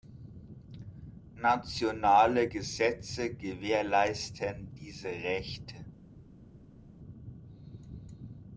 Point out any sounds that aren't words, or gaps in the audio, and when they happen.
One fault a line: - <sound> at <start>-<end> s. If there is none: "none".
none